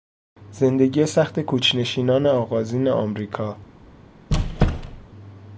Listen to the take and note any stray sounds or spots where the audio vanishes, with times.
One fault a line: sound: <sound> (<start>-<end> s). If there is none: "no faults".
sound: squeak (4.3-5.1 s)